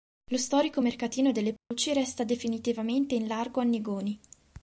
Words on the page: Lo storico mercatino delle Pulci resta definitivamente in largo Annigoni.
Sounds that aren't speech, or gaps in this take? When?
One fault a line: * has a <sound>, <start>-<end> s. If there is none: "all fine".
* has a dropout, 1.6-1.7 s